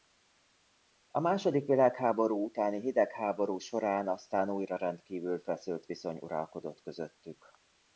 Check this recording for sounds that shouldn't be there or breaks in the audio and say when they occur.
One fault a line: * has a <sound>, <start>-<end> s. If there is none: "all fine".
all fine